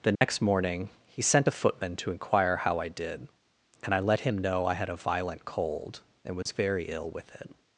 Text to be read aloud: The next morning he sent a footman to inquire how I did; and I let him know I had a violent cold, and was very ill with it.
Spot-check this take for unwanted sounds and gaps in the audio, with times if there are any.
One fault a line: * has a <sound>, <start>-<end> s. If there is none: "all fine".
* has a dropout, 0.1-0.2 s
* has a dropout, 6.4-6.5 s